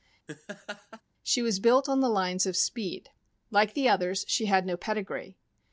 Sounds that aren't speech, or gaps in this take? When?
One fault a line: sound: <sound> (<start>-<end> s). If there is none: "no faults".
sound: laugh (0.3-1.0 s)